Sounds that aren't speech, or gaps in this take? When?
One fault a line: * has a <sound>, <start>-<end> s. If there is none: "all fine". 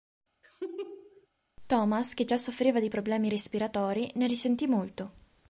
* has a laugh, 0.4-1.3 s